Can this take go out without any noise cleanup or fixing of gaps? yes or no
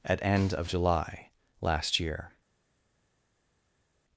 yes